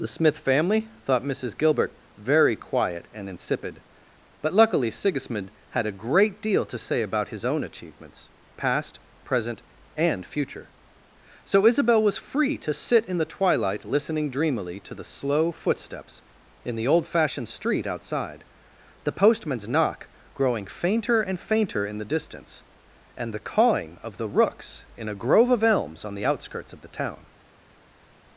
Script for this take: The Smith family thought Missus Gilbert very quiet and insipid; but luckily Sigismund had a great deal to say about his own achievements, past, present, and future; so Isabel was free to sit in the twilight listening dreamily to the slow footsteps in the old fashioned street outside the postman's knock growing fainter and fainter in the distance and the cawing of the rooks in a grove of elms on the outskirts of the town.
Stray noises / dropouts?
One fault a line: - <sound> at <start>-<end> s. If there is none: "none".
none